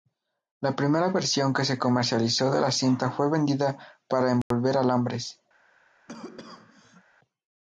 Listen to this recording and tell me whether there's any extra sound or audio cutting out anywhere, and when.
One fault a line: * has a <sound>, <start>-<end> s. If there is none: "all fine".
* has a dropout, 4.4-4.5 s
* has a cough, 6.1-7.0 s